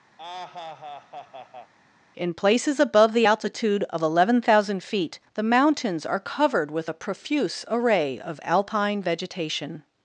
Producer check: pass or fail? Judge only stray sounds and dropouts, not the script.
fail